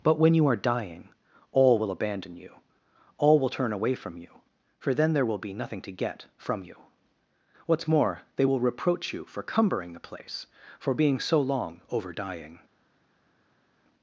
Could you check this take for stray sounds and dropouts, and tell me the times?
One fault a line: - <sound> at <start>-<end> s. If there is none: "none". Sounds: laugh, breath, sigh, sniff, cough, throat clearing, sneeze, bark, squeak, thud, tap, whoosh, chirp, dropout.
none